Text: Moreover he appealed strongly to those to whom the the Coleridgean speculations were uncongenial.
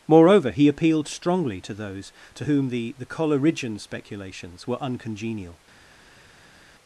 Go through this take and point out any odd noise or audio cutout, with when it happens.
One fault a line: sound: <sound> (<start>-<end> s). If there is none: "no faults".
no faults